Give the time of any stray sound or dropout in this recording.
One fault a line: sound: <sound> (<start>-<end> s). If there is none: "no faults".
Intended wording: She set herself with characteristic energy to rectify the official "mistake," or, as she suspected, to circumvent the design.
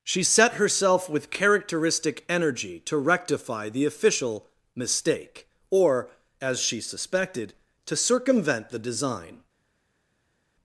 no faults